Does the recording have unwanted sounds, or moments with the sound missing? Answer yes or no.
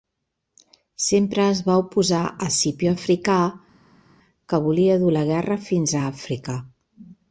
no